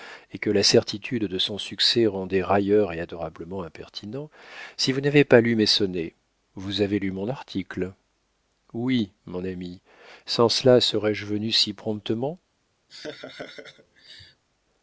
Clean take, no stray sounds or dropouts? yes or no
no